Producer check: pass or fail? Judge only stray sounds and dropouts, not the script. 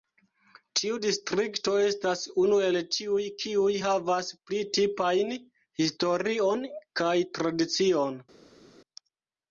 pass